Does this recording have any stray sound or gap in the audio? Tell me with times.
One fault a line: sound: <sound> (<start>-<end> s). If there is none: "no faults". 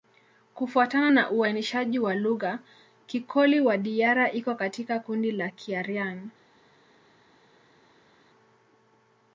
no faults